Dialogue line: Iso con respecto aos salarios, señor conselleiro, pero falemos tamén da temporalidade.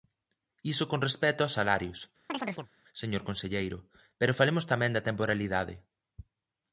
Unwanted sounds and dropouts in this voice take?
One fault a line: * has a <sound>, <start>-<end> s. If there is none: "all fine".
* has a chirp, 2.3-2.7 s